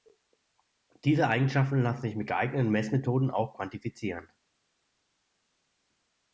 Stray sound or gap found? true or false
false